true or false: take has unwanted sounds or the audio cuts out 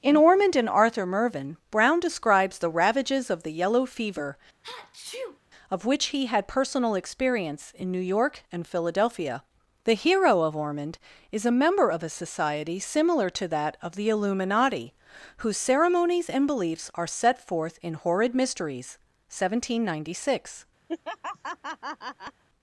true